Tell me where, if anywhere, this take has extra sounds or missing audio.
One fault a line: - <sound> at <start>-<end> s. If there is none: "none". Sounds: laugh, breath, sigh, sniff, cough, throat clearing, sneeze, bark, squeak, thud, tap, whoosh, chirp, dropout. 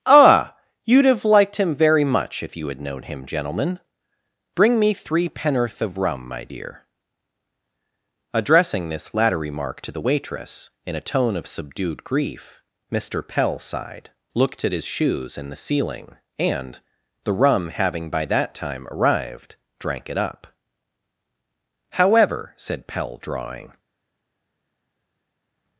none